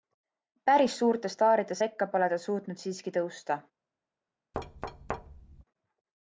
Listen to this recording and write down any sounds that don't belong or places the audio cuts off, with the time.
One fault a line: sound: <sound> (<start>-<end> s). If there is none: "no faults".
sound: thud (4.5-5.6 s)